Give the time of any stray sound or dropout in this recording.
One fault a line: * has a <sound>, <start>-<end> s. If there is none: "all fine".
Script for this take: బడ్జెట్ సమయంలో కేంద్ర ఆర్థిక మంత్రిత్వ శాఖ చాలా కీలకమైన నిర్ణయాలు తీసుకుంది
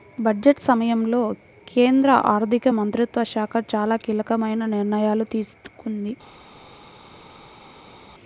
all fine